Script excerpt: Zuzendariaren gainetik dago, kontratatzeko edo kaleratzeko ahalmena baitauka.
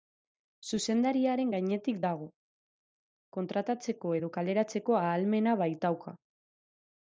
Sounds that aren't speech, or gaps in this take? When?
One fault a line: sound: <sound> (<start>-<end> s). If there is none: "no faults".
no faults